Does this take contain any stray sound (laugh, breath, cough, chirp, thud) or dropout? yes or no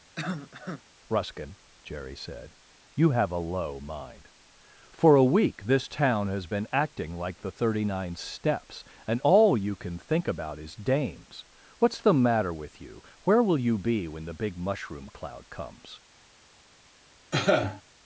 yes